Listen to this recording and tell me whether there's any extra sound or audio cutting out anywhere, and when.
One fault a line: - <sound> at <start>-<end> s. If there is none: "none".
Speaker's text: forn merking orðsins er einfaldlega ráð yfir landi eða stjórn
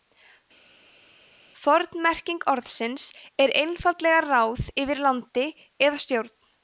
none